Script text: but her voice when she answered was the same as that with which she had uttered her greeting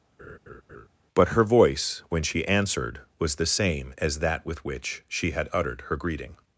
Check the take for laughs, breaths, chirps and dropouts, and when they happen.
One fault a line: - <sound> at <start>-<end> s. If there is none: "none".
- laugh at 0.2-0.9 s